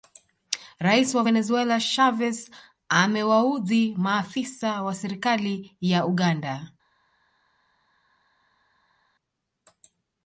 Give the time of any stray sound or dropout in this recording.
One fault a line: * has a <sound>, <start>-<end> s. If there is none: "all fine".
all fine